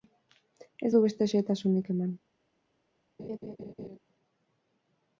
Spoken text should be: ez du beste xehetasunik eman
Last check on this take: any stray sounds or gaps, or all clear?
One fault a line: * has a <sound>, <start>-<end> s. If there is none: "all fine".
* has a laugh, 3.2-4.0 s